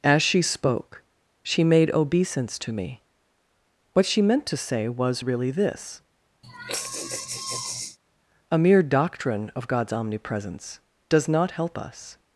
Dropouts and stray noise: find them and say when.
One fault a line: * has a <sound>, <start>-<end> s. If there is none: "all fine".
* has a sigh, 6.4-8.0 s